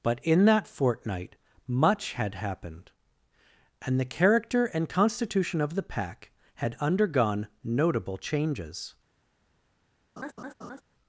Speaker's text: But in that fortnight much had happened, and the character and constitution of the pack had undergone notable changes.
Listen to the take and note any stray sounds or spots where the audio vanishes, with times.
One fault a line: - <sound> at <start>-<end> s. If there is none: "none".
- laugh at 10.2-10.8 s